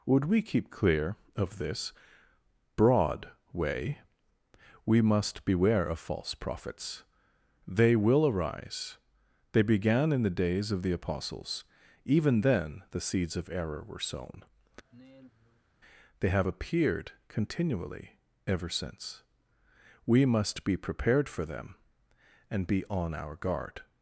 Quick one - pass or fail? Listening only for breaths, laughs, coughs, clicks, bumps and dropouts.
fail